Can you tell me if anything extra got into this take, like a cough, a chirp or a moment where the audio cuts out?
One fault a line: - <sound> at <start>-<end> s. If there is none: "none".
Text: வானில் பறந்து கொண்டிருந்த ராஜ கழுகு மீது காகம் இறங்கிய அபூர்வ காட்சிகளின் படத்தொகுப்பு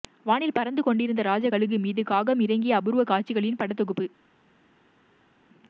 none